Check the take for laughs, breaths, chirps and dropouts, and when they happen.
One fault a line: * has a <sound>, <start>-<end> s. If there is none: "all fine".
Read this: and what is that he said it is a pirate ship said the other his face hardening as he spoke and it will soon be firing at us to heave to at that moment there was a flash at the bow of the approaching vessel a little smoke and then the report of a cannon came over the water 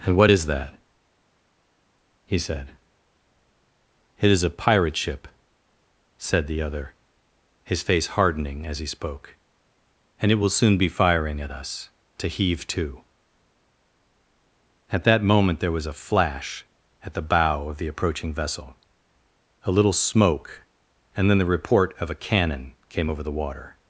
all fine